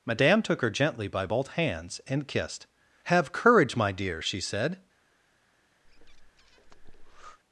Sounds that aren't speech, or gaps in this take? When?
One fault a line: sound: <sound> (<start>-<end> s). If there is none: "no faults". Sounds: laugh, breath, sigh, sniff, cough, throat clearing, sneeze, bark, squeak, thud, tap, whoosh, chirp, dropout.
sound: breath (5.8-7.4 s)